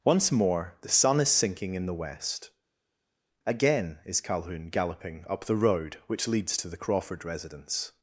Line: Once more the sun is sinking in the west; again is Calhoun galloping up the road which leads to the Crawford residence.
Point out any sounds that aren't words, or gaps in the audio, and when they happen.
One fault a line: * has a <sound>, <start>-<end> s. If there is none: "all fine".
all fine